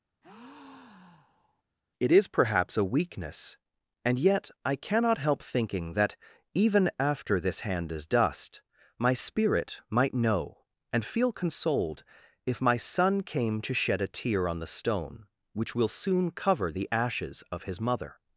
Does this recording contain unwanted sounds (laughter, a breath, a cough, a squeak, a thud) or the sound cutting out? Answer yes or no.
yes